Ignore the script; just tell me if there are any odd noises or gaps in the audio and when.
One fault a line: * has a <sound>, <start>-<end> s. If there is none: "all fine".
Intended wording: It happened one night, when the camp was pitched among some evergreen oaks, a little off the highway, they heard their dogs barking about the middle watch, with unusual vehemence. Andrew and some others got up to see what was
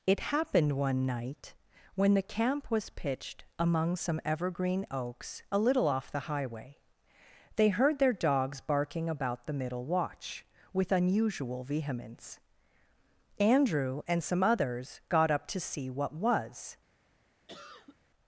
* has a cough, 17.5-18.0 s